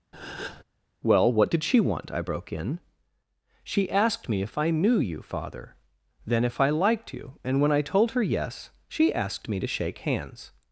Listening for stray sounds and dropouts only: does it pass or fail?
fail